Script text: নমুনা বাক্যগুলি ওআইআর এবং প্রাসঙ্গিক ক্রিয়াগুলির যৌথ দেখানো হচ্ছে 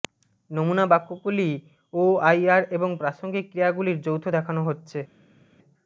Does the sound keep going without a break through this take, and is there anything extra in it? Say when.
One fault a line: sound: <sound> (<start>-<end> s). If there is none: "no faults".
no faults